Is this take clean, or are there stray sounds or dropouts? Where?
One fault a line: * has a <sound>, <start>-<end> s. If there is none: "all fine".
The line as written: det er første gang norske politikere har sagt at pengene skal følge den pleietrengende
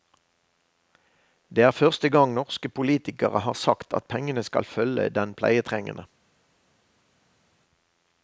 all fine